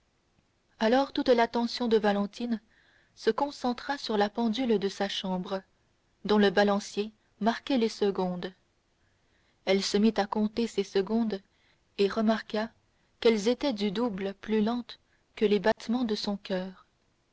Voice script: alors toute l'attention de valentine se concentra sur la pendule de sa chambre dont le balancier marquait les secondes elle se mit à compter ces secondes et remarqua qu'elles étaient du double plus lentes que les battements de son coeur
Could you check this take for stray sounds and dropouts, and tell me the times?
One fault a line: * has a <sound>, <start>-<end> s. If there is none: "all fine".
* has a dropout, 15.7-15.8 s